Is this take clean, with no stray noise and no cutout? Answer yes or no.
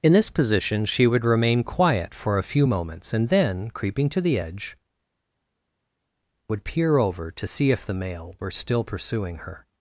yes